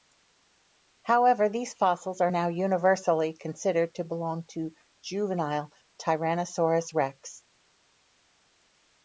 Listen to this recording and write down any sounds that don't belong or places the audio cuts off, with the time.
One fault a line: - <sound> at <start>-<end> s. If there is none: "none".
none